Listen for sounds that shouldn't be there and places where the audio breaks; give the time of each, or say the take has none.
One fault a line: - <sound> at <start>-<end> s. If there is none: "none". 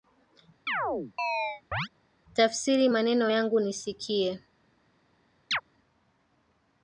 - chirp at 0.7-1.9 s
- chirp at 5.5-5.6 s